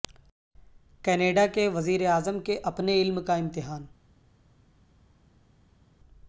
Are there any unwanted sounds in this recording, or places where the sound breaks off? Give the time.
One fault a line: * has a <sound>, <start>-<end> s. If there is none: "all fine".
all fine